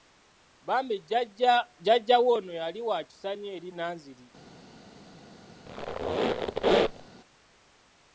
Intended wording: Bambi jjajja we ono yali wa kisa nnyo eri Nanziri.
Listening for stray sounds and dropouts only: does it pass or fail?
fail